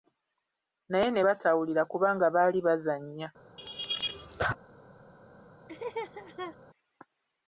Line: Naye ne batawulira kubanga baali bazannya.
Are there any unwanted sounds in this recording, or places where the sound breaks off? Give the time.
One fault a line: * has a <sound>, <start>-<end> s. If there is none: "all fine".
* has a laugh, 3.6-4.6 s
* has a laugh, 5.7-6.6 s